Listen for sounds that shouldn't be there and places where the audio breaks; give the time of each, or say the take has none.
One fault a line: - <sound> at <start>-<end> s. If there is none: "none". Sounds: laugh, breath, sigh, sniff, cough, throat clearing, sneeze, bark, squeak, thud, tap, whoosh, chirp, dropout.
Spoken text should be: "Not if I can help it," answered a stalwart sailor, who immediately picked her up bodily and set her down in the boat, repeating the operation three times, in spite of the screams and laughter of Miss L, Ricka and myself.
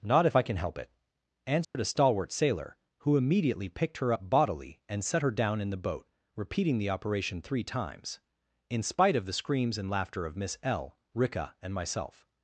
- dropout at 1.6-1.7 s